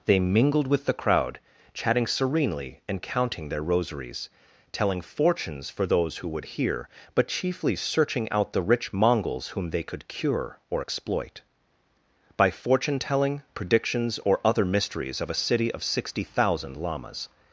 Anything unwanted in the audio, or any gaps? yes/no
no